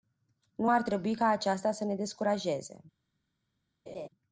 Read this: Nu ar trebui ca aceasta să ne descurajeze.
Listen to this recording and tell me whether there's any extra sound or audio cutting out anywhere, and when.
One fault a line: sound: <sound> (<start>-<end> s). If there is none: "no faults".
sound: laugh (3.9-4.1 s)